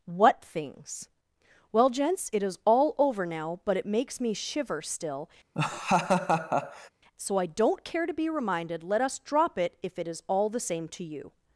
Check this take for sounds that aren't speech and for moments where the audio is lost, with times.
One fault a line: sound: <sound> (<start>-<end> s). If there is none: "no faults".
sound: laugh (5.5-6.9 s)